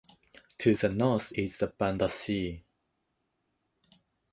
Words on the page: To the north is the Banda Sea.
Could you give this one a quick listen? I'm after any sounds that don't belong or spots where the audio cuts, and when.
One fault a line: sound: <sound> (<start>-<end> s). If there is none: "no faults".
no faults